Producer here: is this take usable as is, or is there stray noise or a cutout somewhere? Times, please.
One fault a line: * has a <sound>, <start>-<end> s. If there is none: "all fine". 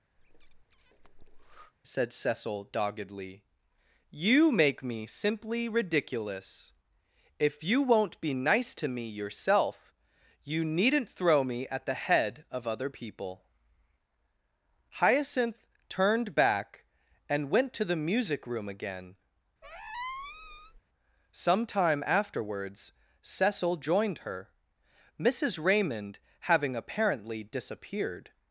* has a breath, 0.2-1.7 s
* has a squeak, 19.6-20.8 s